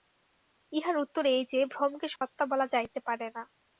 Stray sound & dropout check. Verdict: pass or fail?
fail